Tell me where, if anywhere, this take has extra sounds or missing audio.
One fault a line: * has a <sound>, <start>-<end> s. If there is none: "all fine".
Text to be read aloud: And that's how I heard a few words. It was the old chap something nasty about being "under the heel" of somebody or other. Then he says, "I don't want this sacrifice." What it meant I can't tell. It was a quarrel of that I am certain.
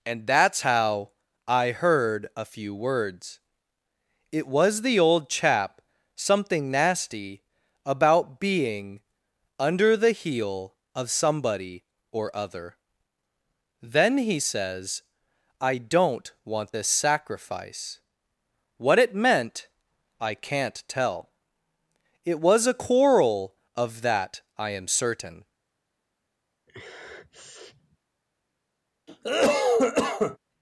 * has a sniff, 26.7-28.0 s
* has a cough, 29.1-30.4 s